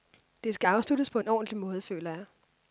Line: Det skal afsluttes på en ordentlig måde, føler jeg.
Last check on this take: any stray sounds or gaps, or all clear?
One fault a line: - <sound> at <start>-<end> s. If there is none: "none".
none